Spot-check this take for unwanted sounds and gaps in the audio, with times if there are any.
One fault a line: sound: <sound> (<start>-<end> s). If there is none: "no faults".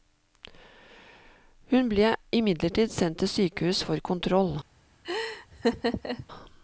sound: laugh (5.0-6.3 s)